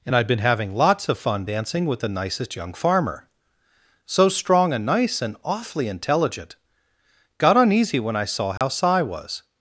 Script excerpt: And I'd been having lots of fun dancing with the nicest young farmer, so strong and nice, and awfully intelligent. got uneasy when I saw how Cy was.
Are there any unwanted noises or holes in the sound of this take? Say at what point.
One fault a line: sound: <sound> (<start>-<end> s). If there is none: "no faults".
sound: dropout (8.6-8.6 s)